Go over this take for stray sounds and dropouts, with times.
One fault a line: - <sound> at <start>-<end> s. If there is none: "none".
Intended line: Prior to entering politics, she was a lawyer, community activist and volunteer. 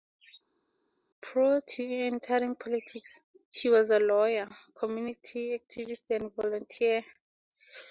none